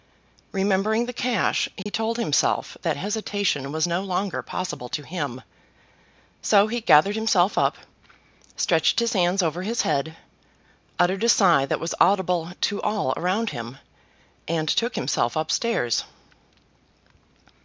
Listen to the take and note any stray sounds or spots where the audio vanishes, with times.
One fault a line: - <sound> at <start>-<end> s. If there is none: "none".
- dropout at 1.8-1.9 s